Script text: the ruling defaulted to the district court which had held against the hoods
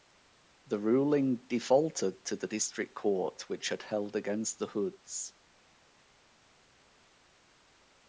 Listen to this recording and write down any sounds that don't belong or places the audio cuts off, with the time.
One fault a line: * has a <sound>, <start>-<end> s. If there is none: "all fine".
all fine